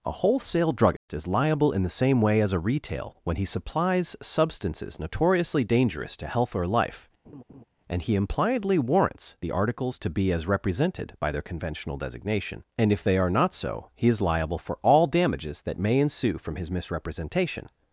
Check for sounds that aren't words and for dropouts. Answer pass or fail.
fail